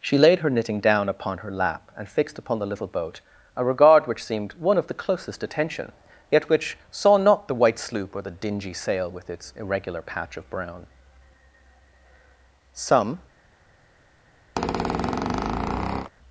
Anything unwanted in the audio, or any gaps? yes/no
yes